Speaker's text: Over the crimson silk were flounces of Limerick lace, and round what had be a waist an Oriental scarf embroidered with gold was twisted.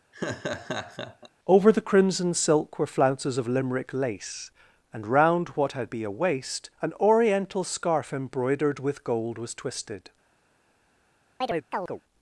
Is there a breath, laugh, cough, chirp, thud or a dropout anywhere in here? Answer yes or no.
yes